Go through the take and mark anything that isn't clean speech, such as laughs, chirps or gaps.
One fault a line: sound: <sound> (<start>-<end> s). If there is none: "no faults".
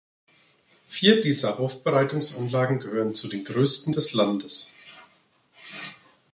no faults